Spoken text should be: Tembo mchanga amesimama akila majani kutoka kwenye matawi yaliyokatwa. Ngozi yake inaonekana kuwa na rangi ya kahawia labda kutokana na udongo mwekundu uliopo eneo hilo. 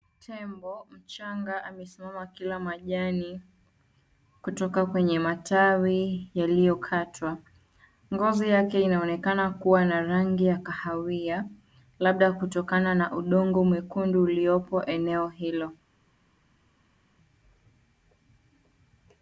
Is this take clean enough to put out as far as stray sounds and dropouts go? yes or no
yes